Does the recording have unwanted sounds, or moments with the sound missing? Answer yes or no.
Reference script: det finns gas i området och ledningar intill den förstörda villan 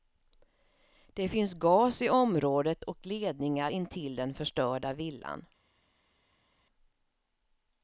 no